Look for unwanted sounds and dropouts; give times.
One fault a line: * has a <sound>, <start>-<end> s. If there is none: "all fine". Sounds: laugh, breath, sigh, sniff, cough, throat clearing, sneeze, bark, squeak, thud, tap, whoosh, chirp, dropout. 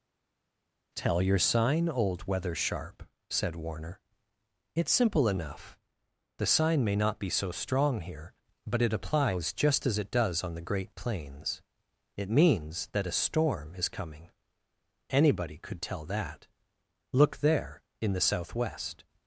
all fine